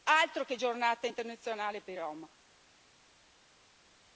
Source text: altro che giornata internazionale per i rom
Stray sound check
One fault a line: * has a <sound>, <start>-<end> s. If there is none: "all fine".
all fine